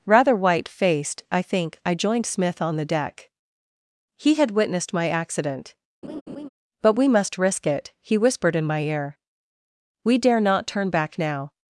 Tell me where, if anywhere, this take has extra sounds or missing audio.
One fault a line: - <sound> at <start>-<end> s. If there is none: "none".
- laugh at 6.0-6.5 s